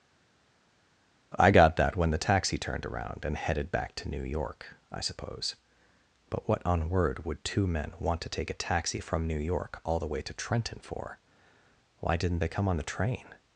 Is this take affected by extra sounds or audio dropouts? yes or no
no